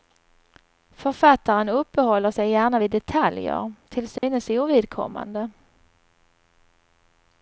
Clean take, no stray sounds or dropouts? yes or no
no